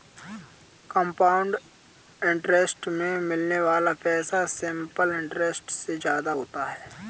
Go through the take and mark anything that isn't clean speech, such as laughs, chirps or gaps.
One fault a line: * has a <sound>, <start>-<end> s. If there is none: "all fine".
all fine